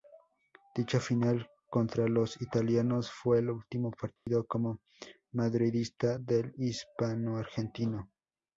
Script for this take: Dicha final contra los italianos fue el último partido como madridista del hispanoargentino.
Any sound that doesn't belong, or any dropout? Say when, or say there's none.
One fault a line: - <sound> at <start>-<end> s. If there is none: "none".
- dropout at 4.2-4.3 s